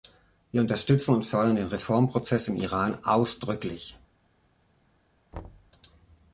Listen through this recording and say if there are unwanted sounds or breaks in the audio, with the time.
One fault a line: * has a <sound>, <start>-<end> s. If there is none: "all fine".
* has a thud, 5.3-5.7 s